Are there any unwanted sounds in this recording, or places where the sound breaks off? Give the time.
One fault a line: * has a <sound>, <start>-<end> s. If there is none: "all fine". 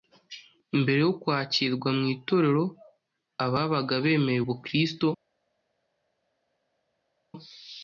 all fine